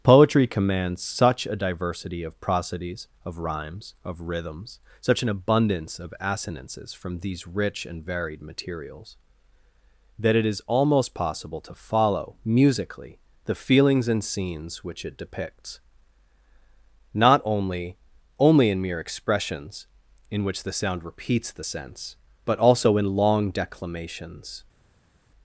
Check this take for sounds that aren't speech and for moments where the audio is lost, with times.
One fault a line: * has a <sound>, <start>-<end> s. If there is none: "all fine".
all fine